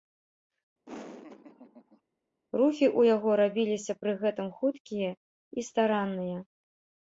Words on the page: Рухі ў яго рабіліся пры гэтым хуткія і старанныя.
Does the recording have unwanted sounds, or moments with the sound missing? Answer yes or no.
yes